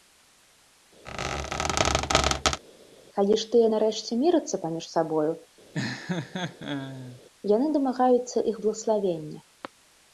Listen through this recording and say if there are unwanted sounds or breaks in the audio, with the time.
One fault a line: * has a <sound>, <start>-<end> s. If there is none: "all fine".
* has a squeak, 1.1-2.6 s
* has a laugh, 5.7-7.2 s